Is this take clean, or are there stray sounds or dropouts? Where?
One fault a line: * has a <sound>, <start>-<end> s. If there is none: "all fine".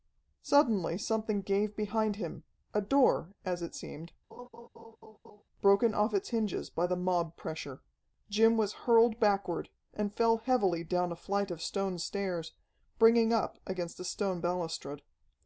* has a laugh, 4.3-5.4 s